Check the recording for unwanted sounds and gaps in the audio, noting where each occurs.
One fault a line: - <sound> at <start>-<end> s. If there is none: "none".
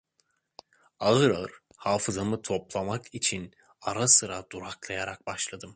none